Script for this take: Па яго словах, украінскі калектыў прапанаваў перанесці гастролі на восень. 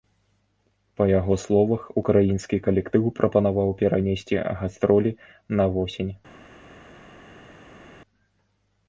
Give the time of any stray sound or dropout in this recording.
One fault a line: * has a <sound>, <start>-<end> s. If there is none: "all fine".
all fine